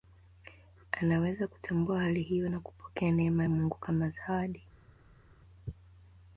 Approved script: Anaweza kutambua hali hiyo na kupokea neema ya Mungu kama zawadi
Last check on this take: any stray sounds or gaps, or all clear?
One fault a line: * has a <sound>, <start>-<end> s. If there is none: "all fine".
all fine